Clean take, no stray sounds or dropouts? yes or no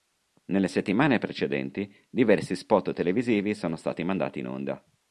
yes